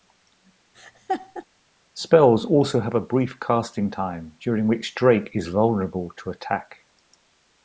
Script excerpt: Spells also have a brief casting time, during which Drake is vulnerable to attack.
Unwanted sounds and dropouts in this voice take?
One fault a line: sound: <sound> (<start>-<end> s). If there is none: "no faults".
sound: laugh (0.7-1.4 s)